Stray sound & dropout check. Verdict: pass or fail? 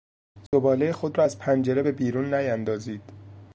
fail